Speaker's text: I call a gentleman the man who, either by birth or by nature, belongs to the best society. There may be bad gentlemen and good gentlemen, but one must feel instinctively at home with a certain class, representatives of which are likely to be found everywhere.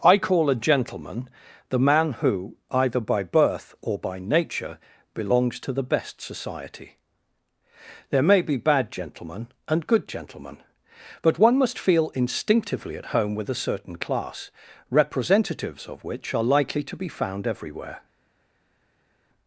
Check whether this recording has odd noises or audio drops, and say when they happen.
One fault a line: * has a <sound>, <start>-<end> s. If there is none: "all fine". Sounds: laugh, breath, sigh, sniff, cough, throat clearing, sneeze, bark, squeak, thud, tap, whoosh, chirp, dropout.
all fine